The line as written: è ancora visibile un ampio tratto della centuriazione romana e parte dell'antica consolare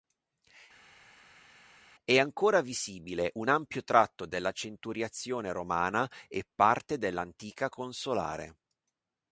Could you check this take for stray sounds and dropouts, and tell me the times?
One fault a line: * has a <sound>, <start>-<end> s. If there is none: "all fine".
all fine